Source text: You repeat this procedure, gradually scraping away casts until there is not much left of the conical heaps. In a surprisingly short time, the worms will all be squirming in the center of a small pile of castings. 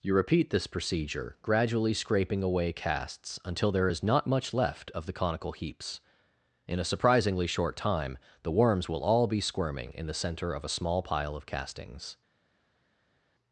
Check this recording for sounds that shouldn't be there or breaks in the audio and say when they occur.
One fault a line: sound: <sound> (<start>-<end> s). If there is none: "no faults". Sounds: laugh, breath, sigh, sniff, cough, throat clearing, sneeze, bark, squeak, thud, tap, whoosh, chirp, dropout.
no faults